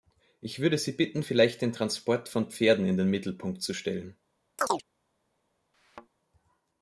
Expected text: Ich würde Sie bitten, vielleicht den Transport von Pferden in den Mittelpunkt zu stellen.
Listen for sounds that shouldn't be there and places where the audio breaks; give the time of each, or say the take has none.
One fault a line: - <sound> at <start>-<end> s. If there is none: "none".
- chirp at 4.6-4.8 s
- thud at 5.7-6.1 s